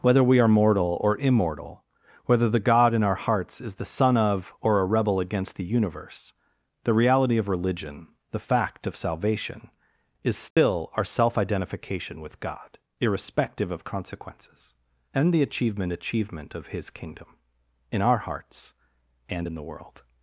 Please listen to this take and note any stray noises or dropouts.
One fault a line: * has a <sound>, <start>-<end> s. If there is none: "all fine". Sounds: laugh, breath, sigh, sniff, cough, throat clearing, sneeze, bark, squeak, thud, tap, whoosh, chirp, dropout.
* has a dropout, 10.5-10.6 s